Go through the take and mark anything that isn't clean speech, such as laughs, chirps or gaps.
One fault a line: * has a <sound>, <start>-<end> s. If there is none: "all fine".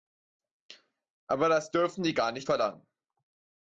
all fine